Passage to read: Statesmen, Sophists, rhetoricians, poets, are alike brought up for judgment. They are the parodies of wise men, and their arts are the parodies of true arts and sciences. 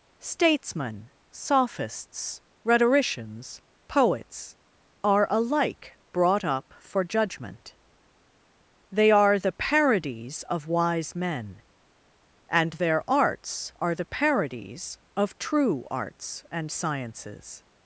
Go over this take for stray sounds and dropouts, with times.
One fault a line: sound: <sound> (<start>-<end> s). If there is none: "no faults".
no faults